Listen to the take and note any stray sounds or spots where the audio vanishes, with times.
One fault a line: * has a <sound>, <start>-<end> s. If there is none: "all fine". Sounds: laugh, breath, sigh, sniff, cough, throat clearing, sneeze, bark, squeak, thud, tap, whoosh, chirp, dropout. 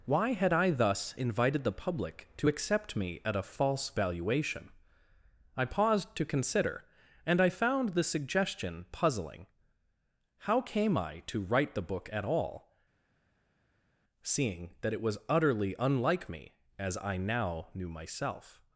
all fine